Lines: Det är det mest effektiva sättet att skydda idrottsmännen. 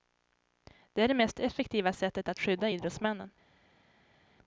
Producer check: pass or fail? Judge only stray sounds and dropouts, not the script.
pass